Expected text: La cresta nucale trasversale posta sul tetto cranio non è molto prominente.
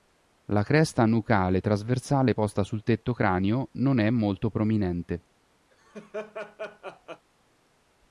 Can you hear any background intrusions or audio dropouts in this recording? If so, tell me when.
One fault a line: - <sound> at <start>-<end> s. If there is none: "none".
- laugh at 5.7-7.3 s